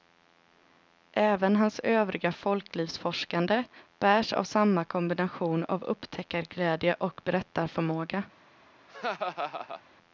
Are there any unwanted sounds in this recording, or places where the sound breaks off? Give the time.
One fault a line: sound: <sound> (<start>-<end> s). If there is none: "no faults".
sound: laugh (8.9-9.8 s)